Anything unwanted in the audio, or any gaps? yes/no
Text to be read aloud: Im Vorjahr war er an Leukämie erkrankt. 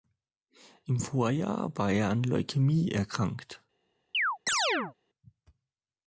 yes